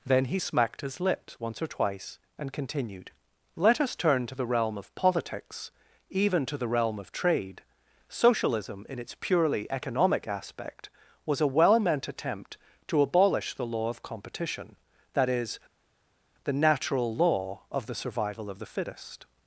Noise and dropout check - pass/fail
pass